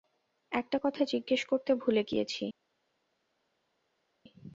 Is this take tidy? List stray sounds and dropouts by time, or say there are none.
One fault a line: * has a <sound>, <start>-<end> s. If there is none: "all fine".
all fine